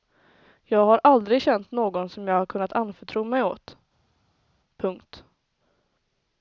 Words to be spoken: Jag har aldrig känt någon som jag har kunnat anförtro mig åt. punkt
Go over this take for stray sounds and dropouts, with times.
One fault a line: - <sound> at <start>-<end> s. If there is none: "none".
none